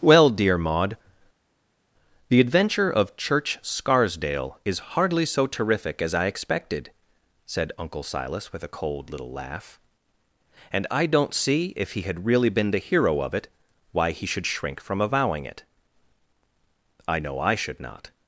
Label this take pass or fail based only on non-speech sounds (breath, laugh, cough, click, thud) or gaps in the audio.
pass